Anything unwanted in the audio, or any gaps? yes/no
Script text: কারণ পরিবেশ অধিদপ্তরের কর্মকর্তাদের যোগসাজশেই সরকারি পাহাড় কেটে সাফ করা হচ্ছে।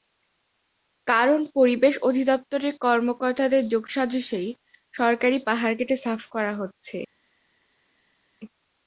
no